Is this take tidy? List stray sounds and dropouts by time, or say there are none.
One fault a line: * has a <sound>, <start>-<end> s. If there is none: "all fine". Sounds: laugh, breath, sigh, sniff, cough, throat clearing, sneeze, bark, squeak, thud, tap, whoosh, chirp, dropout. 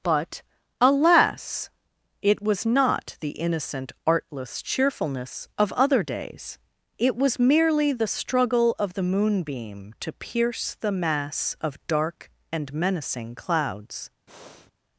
* has a breath, 14.3-14.7 s